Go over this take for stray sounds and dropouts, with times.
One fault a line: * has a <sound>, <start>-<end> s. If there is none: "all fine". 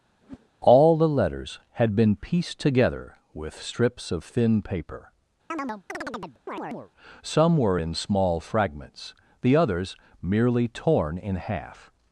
* has a whoosh, 0.2-0.5 s
* has a chirp, 5.5-6.9 s